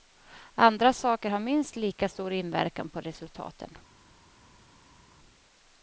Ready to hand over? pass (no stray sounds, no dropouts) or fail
pass